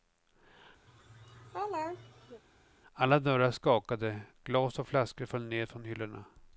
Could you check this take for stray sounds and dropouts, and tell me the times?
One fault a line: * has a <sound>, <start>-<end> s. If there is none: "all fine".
* has a laugh, 0.9-2.4 s